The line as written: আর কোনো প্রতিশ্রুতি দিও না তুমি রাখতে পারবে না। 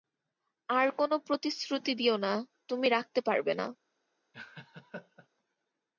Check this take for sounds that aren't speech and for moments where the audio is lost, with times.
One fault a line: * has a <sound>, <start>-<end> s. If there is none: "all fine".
* has a laugh, 4.3-5.3 s